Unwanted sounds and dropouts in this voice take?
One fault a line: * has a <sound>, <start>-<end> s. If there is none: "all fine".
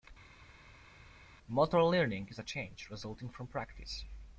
all fine